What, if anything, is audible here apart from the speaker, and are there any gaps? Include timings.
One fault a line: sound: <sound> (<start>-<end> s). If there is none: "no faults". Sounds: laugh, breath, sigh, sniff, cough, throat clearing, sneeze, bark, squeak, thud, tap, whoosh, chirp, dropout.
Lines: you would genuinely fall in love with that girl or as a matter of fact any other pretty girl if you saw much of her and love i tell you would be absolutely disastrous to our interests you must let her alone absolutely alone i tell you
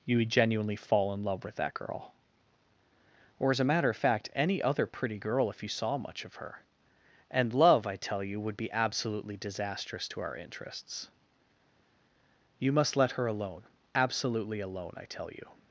no faults